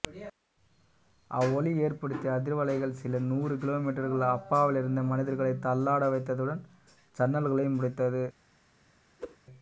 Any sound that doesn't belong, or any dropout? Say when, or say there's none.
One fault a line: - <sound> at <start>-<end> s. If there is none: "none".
- whoosh at 9.2-9.4 s